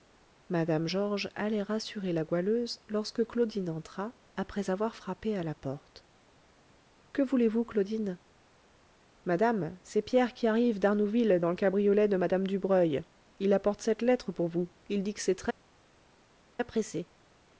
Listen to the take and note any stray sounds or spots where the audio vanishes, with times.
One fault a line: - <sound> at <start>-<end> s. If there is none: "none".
none